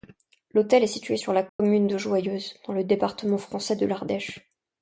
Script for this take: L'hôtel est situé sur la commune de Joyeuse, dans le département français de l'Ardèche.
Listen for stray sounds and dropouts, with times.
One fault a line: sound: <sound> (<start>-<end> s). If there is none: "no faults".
sound: dropout (1.5-1.6 s)